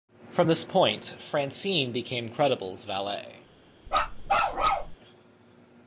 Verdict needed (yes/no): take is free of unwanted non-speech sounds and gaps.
no